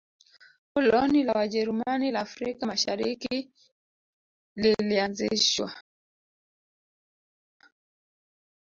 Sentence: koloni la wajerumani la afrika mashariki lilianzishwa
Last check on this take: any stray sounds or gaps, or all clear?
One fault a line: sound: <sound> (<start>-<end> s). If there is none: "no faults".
no faults